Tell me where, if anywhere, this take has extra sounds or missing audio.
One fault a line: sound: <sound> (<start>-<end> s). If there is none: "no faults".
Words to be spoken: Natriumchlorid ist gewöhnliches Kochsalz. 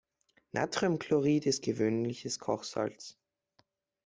no faults